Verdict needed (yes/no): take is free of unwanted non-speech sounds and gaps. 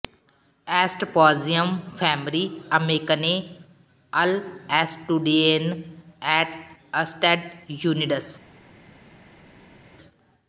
yes